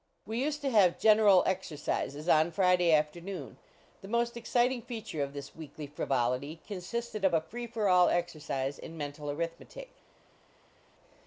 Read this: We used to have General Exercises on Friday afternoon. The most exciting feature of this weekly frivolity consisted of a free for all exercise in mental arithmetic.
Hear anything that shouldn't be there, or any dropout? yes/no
no